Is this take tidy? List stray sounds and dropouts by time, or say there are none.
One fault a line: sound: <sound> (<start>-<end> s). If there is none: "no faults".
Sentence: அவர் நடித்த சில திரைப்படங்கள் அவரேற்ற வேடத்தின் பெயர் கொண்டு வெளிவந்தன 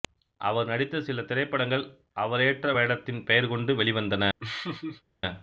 sound: laugh (4.4-5.0 s)